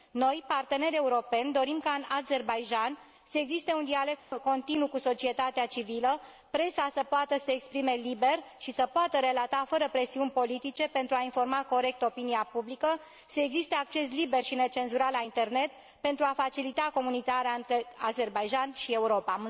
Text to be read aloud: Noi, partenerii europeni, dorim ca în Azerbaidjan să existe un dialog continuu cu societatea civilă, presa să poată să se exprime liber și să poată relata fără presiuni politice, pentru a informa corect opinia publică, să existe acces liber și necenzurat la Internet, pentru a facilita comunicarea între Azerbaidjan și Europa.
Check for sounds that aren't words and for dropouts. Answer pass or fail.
fail